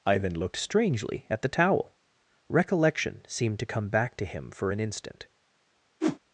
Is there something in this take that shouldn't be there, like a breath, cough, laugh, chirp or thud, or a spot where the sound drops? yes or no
yes